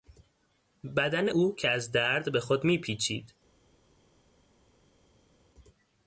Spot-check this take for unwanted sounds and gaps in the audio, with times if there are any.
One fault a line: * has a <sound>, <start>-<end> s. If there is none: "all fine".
all fine